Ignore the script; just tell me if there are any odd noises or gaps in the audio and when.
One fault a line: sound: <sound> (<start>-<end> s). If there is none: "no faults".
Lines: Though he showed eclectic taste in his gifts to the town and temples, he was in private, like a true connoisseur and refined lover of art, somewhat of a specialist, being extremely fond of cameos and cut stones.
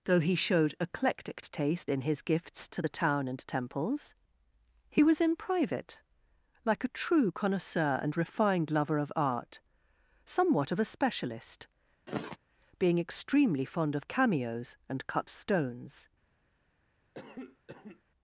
sound: sigh (12.1-12.4 s)
sound: cough (17.1-18.0 s)